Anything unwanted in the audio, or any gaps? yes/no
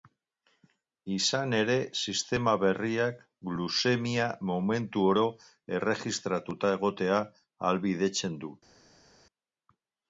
no